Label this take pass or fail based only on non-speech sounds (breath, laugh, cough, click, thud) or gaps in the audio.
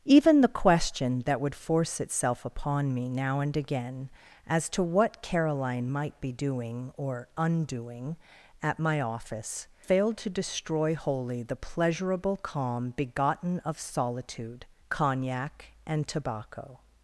pass